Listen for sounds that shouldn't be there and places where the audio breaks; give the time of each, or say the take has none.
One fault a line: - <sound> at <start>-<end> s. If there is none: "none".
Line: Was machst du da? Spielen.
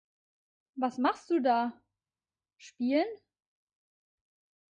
none